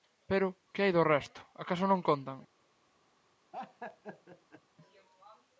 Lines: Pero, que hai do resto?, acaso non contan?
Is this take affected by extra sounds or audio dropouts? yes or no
yes